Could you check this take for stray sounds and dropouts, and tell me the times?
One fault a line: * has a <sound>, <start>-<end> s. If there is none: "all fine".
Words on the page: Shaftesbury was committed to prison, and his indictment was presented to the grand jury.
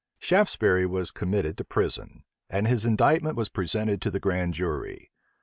all fine